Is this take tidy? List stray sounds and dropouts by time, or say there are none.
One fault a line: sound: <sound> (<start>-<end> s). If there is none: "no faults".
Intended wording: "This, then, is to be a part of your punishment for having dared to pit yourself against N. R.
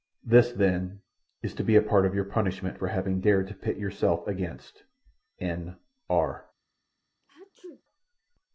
sound: sneeze (7.2-7.8 s)